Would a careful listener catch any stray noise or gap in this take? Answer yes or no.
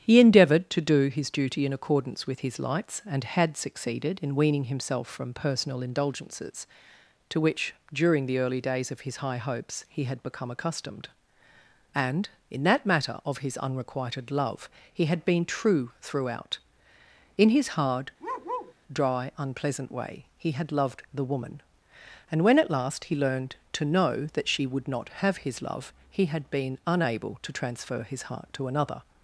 yes